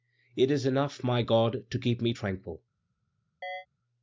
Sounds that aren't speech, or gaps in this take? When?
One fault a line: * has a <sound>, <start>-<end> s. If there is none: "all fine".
* has a chirp, 3.4-3.7 s